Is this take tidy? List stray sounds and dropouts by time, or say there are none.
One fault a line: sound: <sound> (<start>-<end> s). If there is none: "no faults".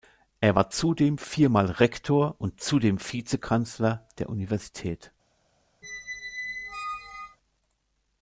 sound: squeak (5.8-7.4 s)